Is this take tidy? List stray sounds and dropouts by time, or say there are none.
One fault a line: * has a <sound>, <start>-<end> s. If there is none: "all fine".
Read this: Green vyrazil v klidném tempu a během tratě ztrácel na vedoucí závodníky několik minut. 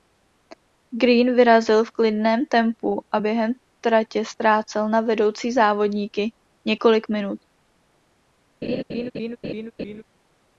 * has a laugh, 8.6-10.0 s